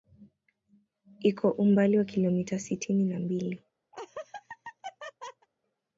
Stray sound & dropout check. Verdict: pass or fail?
fail